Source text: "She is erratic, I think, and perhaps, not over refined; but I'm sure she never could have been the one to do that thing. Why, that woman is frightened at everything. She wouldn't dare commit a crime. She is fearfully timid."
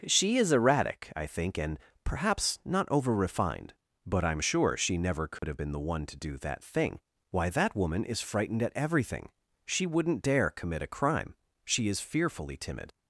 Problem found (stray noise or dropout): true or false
true